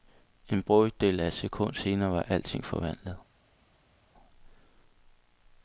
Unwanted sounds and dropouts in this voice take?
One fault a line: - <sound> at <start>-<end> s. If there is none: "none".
none